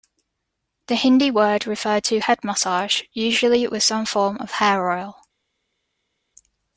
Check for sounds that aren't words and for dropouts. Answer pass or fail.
pass